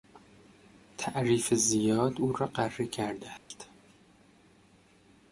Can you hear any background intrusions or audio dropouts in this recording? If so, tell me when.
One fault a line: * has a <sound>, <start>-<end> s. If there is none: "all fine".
* has a dropout, 3.4-3.5 s